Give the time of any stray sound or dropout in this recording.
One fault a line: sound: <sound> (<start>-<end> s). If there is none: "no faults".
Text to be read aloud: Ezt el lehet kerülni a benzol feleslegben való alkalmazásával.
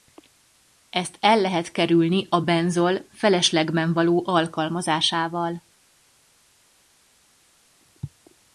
no faults